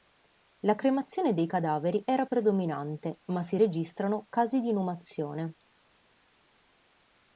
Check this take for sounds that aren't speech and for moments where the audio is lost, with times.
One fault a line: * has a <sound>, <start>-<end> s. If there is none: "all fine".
all fine